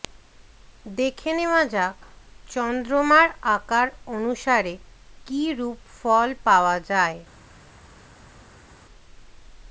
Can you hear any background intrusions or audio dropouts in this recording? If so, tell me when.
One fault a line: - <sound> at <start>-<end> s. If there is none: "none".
none